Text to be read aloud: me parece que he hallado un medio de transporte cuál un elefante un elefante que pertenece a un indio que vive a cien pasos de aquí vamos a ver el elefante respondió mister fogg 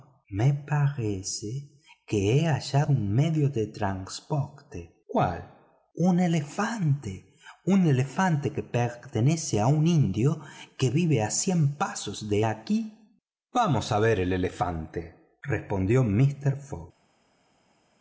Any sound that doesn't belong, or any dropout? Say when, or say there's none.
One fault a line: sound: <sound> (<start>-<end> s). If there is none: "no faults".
no faults